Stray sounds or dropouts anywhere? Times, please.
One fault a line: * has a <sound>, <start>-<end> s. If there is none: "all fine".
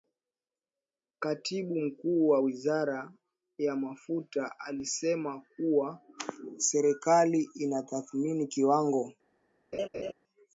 * has a laugh, 9.7-10.1 s